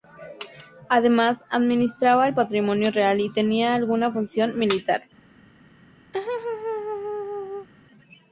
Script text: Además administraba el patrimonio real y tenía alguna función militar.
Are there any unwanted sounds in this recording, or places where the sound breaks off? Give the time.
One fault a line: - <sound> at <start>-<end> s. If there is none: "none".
- laugh at 6.1-7.7 s